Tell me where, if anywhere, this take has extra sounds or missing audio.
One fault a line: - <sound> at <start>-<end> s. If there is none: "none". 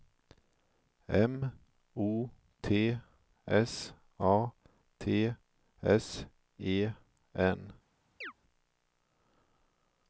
- chirp at 8.2-8.3 s